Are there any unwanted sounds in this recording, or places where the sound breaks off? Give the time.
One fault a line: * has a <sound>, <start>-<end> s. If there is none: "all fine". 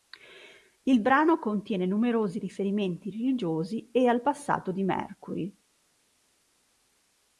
all fine